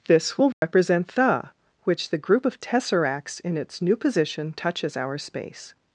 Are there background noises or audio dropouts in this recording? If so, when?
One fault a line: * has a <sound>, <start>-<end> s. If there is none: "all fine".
* has a dropout, 0.5-0.6 s